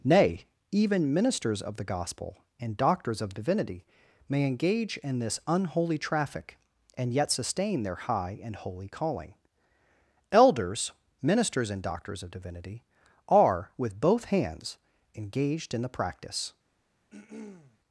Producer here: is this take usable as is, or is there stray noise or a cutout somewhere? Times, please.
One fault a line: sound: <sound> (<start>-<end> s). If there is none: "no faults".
sound: throat clearing (17.1-17.8 s)